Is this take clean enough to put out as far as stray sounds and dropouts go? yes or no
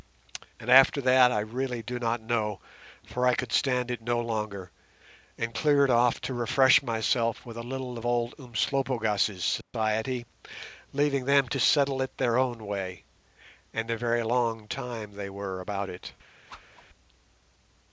no